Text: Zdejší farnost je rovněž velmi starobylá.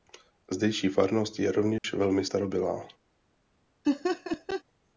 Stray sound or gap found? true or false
true